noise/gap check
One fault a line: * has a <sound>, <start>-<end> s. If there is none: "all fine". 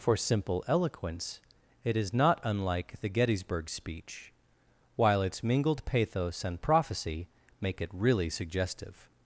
all fine